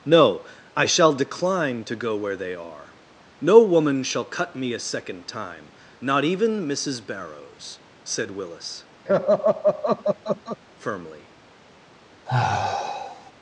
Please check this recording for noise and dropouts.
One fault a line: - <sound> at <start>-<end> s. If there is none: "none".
- laugh at 9.1-10.6 s
- sigh at 12.3-13.3 s